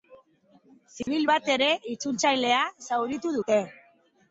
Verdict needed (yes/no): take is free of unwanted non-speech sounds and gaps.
no